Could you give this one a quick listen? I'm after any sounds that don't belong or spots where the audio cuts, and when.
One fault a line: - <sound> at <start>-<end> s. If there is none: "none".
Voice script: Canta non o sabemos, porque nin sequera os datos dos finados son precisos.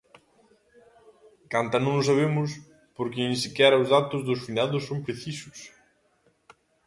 none